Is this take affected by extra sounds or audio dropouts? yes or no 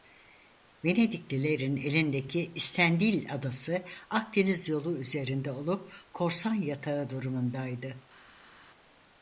no